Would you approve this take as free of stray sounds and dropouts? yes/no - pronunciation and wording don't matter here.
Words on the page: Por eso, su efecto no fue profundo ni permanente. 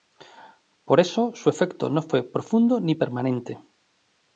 yes